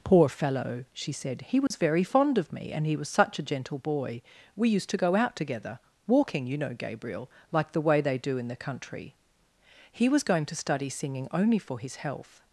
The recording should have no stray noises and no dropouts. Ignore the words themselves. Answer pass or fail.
fail